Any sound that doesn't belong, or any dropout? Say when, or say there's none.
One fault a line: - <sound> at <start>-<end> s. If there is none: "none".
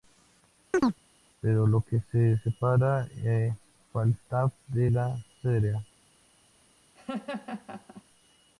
- chirp at 0.7-1.0 s
- laugh at 6.9-8.0 s